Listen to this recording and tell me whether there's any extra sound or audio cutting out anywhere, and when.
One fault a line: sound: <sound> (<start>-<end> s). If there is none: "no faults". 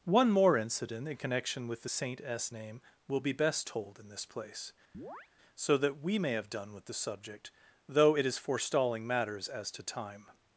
sound: chirp (4.9-5.3 s)